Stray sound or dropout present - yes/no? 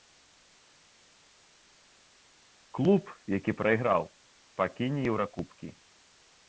no